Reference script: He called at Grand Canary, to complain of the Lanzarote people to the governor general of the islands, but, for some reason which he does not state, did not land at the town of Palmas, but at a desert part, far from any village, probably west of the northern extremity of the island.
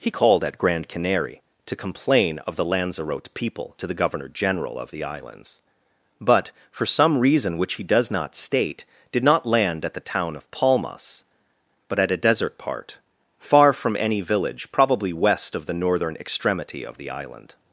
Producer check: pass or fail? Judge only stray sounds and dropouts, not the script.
pass